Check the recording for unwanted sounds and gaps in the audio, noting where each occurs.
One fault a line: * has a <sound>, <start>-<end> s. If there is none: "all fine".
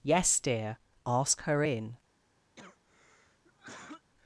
* has a cough, 2.6-4.1 s